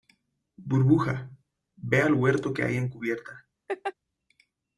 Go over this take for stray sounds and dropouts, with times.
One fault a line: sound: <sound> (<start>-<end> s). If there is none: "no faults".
sound: laugh (3.7-3.9 s)